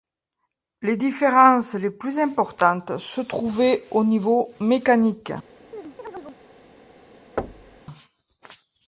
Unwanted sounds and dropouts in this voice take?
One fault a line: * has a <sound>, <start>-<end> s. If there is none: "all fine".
* has a chirp, 5.7-6.4 s
* has a thud, 7.4-7.8 s